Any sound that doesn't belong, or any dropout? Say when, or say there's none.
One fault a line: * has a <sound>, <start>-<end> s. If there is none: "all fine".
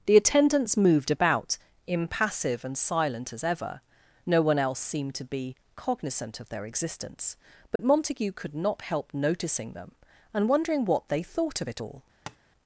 * has a dropout, 7.8-7.8 s
* has a tap, 12.3-12.4 s